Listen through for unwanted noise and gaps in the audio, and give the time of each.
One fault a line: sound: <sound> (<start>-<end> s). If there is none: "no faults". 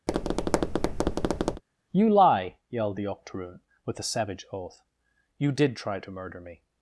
sound: tap (0.1-1.6 s)